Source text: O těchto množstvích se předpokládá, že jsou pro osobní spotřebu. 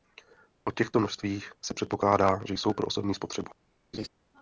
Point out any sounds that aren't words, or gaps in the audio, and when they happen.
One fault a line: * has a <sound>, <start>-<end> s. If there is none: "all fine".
* has a laugh, 3.9-4.1 s